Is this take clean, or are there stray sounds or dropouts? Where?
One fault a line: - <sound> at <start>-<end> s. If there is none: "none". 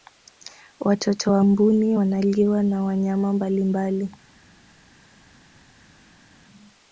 none